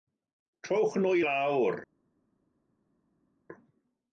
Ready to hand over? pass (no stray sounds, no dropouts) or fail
pass